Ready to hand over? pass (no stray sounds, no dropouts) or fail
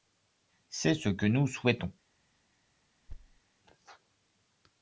fail